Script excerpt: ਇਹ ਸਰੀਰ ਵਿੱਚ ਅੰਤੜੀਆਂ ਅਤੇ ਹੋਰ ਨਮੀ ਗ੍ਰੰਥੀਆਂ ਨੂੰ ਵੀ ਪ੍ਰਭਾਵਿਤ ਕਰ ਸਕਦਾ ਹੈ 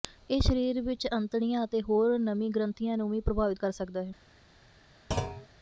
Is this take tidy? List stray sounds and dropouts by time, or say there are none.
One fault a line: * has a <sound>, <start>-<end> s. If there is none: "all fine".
* has a thud, 5.1-5.5 s